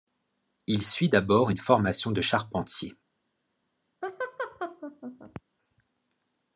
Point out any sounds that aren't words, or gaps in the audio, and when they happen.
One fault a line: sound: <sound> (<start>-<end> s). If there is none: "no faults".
sound: laugh (4.0-5.4 s)